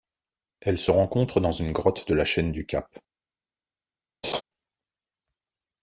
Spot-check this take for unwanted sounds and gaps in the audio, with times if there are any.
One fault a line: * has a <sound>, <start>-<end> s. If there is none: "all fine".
* has a laugh, 4.2-4.4 s